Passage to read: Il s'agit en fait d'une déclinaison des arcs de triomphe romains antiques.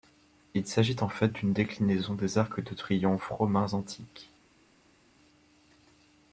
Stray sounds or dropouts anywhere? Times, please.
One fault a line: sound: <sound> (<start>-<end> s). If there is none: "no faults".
no faults